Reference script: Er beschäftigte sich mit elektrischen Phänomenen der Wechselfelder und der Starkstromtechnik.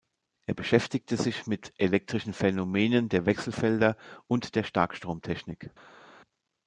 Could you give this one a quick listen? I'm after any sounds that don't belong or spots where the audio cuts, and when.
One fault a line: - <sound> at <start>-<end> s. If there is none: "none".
none